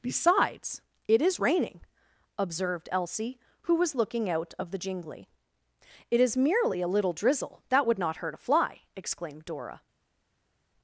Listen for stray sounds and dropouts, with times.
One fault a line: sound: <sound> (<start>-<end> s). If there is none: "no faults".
no faults